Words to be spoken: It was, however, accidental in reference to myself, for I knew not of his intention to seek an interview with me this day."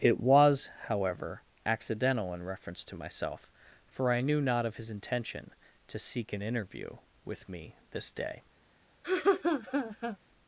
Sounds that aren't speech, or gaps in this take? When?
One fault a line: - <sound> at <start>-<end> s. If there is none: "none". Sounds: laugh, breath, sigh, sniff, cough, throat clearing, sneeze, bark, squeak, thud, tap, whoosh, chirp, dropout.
- laugh at 9.0-10.2 s